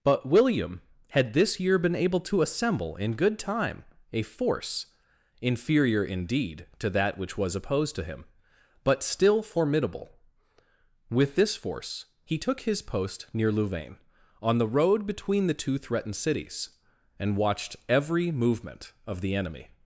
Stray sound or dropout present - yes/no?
no